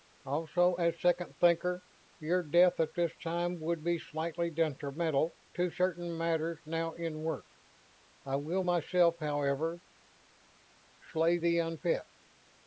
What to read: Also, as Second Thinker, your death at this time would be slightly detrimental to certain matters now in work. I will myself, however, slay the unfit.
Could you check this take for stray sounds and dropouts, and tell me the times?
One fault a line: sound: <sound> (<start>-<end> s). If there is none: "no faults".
no faults